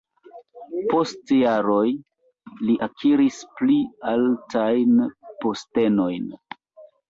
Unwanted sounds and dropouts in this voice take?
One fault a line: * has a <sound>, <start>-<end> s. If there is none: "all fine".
all fine